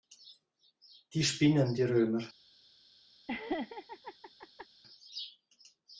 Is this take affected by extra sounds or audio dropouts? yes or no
yes